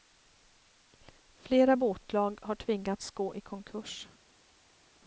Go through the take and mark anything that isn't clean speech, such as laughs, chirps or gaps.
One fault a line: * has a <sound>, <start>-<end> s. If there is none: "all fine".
all fine